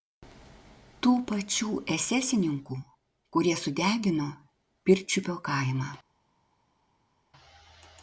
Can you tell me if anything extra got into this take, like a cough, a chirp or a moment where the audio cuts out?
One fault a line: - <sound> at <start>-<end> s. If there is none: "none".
none